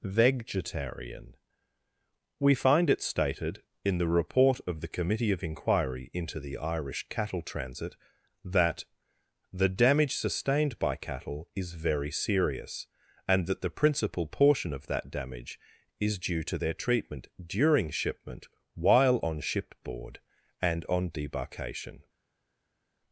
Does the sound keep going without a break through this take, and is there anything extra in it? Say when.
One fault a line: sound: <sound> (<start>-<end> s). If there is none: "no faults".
no faults